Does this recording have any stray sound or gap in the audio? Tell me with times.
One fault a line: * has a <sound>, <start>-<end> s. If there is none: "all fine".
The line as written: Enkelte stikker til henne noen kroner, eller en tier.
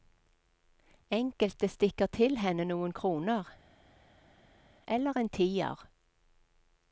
all fine